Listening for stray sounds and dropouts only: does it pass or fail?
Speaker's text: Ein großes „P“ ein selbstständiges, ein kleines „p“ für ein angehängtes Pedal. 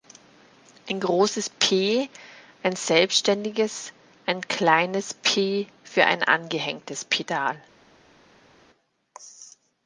pass